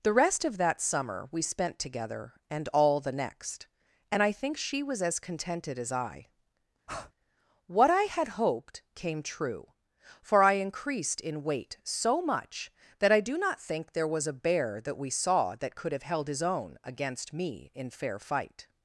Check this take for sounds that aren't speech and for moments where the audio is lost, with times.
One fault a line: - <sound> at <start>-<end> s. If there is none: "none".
- breath at 6.9-7.1 s